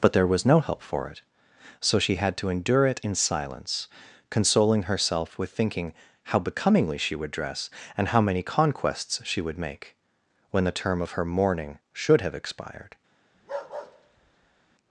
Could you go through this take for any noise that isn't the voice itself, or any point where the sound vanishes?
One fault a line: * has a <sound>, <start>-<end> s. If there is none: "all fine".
* has a bark, 13.3-14.8 s